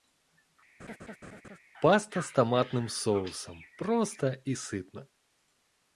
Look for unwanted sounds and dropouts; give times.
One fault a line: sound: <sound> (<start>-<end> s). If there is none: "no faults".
sound: laugh (0.8-1.6 s)